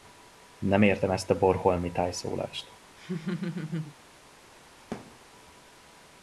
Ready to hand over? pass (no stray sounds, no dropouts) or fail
fail